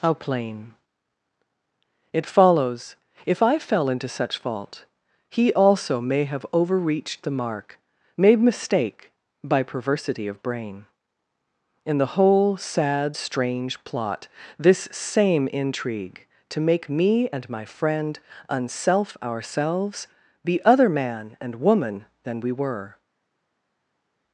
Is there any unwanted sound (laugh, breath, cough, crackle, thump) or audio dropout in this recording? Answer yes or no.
no